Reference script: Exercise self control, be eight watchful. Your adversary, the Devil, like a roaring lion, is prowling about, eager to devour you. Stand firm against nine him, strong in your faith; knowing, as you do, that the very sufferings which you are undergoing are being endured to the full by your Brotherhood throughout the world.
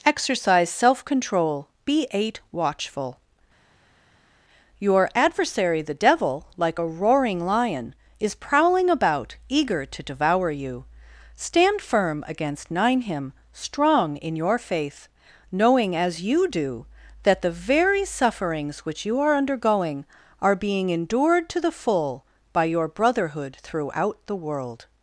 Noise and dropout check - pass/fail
pass